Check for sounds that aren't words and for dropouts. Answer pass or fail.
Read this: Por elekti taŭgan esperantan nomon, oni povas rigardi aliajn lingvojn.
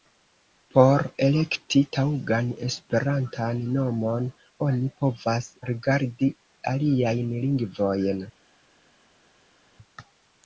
pass